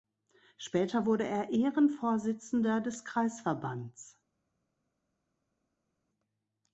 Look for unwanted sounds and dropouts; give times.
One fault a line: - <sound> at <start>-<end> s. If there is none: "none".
none